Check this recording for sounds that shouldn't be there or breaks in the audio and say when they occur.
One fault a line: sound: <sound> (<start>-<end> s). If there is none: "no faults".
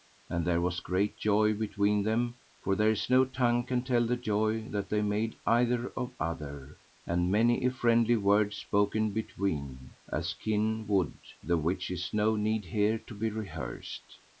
no faults